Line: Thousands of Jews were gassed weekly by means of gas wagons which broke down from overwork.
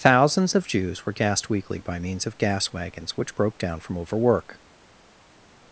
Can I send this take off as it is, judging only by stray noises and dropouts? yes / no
yes